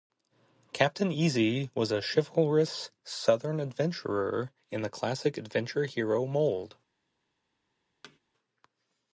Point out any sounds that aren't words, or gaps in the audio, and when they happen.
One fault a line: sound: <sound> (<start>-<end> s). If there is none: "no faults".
sound: thud (8.0-8.2 s)